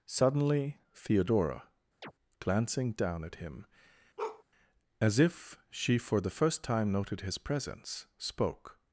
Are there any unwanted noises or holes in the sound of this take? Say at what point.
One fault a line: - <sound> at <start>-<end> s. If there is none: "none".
- chirp at 2.0-2.1 s
- bark at 4.2-4.4 s